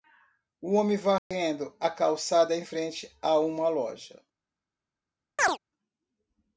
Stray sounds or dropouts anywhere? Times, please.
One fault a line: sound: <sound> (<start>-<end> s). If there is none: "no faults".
sound: dropout (1.2-1.3 s)
sound: chirp (5.4-5.6 s)